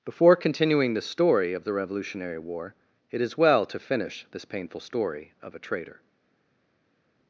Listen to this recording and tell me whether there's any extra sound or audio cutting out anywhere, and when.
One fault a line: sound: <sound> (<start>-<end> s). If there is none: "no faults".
no faults